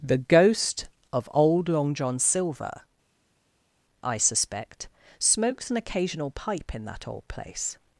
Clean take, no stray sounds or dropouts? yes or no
yes